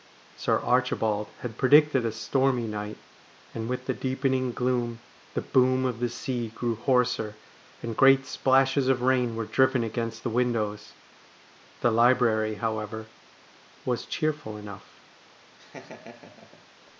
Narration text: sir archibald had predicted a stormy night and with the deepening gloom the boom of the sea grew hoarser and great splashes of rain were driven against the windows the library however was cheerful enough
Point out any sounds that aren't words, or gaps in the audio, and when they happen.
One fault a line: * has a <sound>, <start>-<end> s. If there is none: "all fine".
* has a laugh, 15.6-16.7 s